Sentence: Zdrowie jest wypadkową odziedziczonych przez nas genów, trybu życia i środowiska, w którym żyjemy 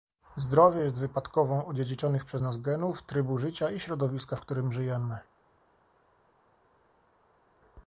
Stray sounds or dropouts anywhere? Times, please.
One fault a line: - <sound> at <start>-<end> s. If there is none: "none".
none